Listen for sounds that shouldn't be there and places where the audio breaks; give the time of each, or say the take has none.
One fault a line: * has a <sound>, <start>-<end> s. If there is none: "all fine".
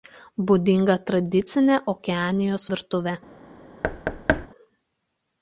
* has a thud, 3.8-4.5 s